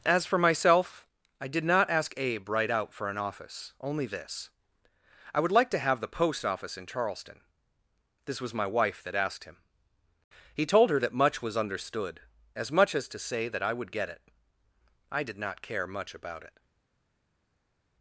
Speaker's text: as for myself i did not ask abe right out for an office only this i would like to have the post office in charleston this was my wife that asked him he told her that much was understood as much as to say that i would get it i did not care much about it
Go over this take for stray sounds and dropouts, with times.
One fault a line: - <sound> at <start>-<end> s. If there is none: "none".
none